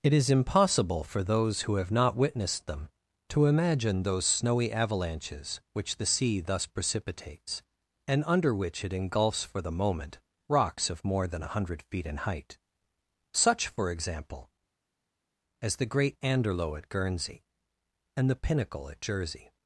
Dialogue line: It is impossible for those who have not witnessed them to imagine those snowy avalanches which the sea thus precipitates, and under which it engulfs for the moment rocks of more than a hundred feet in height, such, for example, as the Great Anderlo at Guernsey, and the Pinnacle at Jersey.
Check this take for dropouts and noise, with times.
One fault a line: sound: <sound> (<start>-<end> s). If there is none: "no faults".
no faults